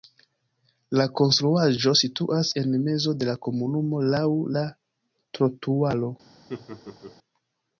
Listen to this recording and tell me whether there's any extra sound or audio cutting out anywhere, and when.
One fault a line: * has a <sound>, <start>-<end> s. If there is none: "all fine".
* has a laugh, 6.5-7.2 s